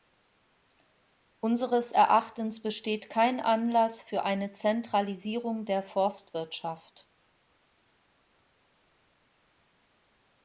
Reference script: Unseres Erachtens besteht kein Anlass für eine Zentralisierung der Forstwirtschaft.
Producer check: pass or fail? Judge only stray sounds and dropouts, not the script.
pass